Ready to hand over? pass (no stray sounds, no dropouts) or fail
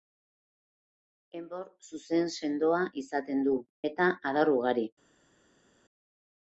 pass